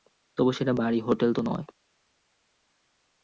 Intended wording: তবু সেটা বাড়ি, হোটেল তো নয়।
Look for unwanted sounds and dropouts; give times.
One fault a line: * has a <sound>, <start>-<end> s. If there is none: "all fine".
all fine